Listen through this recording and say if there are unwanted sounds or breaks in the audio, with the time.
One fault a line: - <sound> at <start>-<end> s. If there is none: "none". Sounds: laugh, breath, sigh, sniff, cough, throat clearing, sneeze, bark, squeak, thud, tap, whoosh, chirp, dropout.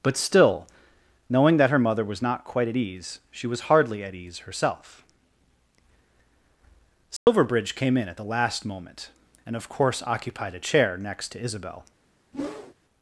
- dropout at 7.2-7.3 s
- whoosh at 12.3-12.7 s